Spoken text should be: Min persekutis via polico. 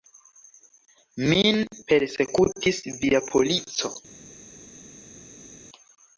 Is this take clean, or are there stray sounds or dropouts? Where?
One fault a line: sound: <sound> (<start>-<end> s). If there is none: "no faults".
no faults